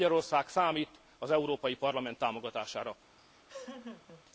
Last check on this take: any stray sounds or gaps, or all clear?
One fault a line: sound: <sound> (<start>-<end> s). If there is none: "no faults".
sound: laugh (3.2-4.2 s)